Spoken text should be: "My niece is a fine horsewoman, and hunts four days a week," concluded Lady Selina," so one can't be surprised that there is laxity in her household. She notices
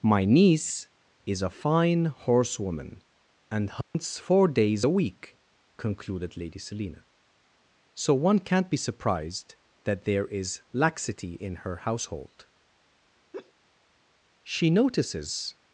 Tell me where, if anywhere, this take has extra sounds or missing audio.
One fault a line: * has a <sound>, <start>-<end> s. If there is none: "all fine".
* has a dropout, 3.8-3.9 s
* has a laugh, 13.3-13.5 s